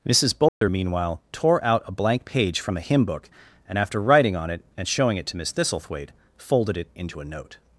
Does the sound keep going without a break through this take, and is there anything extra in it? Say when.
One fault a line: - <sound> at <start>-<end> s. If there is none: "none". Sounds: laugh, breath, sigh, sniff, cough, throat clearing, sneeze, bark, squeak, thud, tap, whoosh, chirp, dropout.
- dropout at 0.5-0.6 s